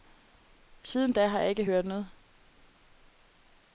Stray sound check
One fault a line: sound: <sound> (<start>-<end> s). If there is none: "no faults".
no faults